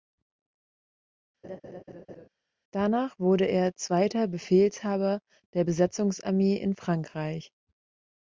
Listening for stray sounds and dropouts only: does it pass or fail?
fail